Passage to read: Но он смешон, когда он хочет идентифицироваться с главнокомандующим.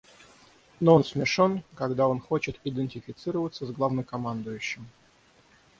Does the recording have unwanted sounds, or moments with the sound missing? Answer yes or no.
no